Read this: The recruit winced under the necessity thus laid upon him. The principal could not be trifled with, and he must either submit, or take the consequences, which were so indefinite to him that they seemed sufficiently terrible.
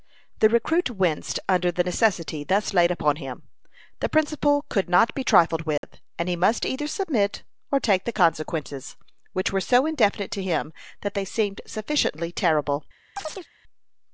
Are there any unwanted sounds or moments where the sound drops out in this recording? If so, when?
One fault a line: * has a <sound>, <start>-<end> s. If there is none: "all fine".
* has a dropout, 5.8-5.8 s
* has a chirp, 13.2-13.5 s